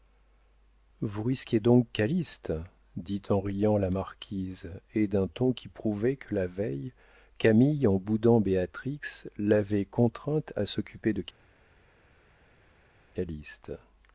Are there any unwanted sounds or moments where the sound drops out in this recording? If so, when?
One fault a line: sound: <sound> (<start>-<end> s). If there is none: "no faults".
no faults